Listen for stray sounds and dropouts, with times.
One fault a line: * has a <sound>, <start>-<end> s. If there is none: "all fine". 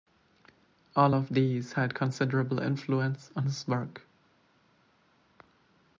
all fine